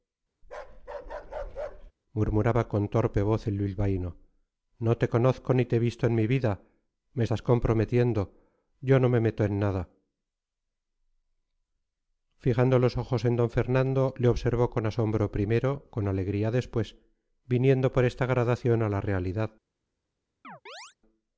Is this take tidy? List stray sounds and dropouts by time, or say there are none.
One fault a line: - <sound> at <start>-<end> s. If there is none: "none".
- bark at 0.4-1.9 s
- chirp at 20.4-21.0 s